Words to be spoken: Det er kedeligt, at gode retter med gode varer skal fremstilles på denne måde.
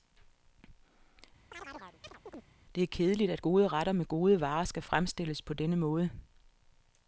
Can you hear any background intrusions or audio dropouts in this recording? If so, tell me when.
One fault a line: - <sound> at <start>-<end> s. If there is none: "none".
- chirp at 1.5-2.5 s